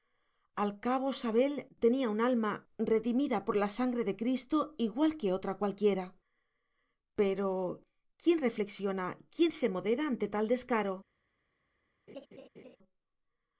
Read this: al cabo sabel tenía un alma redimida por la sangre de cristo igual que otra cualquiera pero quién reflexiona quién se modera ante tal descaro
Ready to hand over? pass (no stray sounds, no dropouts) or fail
fail